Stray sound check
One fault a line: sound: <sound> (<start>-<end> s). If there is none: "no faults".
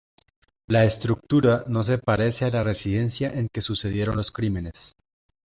no faults